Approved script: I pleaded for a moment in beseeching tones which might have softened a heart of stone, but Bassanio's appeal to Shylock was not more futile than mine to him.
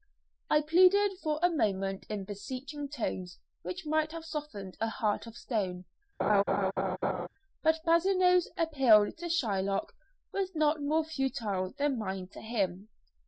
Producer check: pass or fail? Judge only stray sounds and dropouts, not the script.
fail